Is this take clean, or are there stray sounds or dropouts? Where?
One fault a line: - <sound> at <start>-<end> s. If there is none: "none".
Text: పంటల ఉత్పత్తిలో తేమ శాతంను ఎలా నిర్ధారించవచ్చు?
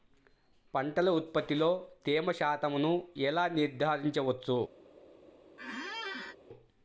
- squeak at 5.6-6.4 s